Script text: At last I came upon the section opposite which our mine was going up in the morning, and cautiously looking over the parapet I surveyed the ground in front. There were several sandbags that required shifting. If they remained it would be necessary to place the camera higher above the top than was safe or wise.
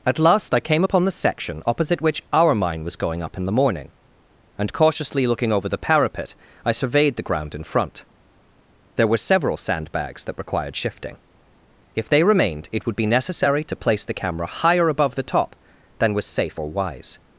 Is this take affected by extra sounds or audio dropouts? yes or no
no